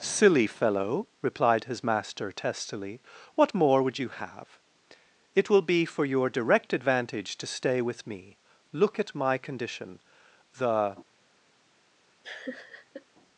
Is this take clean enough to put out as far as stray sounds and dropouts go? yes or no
no